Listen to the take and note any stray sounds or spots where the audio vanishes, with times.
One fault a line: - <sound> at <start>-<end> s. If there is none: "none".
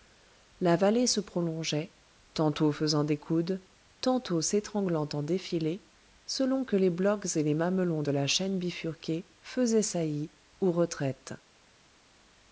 none